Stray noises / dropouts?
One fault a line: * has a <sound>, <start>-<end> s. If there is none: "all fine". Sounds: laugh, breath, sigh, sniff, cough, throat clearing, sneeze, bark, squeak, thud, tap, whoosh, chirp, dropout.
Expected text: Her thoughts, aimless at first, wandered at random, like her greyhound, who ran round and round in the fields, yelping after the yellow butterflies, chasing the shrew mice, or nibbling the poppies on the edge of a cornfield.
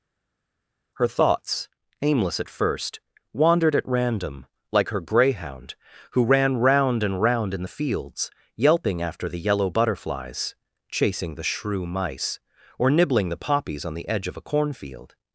all fine